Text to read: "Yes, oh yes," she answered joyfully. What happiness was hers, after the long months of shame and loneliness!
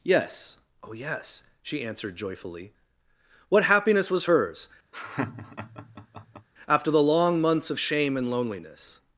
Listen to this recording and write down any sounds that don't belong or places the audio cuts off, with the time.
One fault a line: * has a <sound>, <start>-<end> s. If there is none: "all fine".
* has a laugh, 4.9-6.5 s